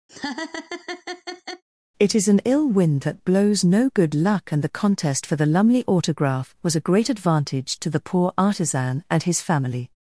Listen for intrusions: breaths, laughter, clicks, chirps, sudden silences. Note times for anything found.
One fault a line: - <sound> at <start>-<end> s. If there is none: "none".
- laugh at 0.1-1.6 s